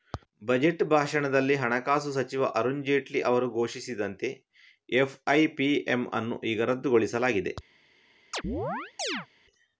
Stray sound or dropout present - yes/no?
yes